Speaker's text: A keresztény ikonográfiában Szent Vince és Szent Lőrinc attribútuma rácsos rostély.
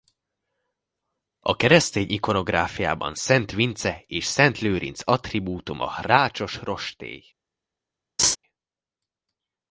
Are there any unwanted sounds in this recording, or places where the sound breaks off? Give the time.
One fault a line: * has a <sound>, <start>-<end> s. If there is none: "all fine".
* has a laugh, 8.2-8.4 s